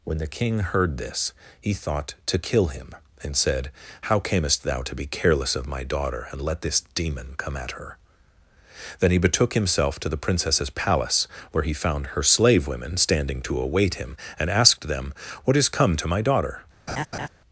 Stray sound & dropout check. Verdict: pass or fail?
fail